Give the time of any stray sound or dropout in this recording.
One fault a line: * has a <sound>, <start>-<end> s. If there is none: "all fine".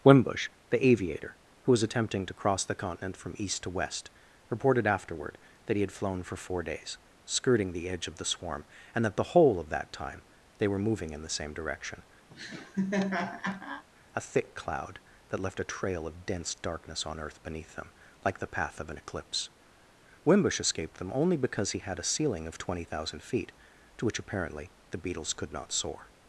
* has a laugh, 12.3-13.8 s